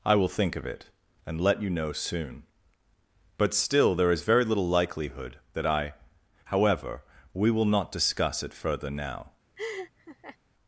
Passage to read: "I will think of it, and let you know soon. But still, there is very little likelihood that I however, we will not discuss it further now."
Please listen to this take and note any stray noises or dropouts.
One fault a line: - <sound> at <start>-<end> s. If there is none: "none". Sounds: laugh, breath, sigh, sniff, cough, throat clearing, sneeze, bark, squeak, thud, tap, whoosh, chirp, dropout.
- laugh at 9.6-10.4 s